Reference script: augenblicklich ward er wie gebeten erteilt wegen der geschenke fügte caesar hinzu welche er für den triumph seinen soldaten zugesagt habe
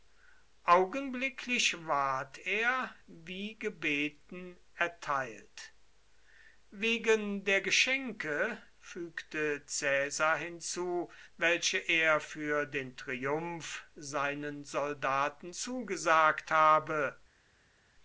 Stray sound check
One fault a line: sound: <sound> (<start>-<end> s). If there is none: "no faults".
no faults